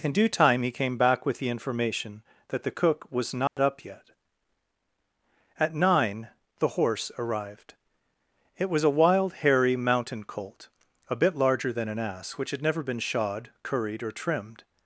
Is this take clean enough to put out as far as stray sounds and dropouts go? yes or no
no